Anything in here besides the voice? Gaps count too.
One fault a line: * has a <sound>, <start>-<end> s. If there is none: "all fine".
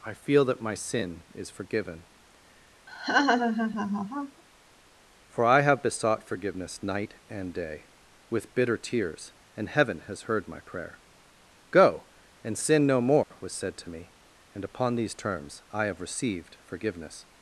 * has a laugh, 2.9-4.4 s
* has a dropout, 13.2-13.3 s